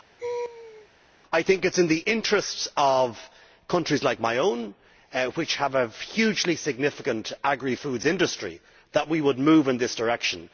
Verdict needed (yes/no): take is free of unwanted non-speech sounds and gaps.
no